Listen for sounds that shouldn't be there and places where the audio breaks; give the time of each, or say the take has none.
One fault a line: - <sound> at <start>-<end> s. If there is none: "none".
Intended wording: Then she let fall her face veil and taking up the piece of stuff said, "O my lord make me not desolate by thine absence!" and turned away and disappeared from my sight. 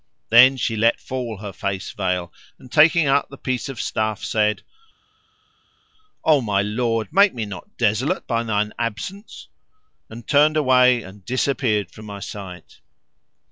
none